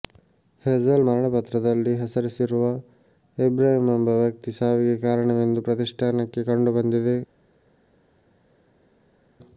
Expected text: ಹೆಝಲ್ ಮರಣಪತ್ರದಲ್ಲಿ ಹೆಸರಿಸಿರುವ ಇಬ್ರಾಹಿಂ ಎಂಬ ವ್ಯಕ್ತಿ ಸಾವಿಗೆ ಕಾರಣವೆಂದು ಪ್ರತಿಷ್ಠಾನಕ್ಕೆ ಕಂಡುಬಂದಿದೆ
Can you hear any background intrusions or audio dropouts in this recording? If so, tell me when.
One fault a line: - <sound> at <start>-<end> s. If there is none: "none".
none